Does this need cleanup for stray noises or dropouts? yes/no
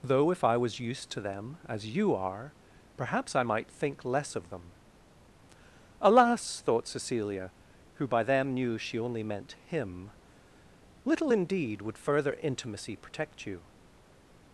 no